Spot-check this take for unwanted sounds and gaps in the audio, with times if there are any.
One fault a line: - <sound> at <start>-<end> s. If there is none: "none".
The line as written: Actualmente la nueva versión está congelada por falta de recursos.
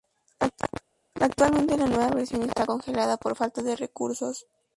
none